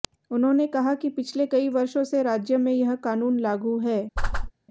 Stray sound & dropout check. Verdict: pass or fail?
fail